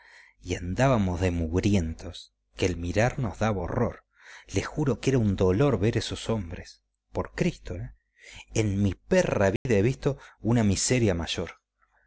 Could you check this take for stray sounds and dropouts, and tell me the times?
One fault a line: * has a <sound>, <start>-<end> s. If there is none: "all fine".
* has a dropout, 9.6-9.7 s